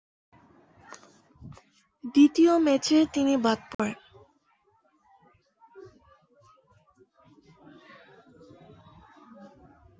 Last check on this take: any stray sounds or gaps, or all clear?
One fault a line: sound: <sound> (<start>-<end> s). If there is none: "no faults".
sound: dropout (3.7-3.8 s)